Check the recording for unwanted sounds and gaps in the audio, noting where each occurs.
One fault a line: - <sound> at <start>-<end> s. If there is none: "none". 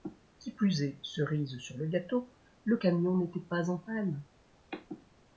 none